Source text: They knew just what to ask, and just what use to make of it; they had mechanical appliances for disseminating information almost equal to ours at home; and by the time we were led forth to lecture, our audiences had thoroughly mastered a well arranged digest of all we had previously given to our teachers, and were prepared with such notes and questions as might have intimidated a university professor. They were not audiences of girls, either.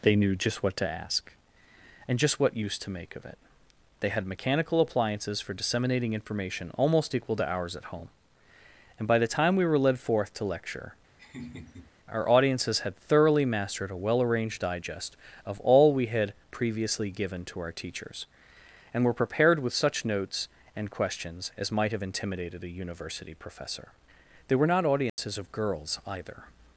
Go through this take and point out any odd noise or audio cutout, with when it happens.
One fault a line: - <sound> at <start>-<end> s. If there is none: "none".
- laugh at 11.2-11.9 s
- dropout at 25.1-25.2 s